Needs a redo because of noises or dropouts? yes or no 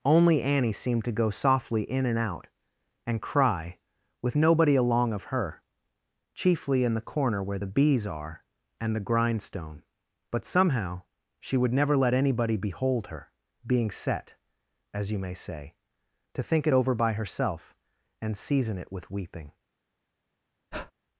yes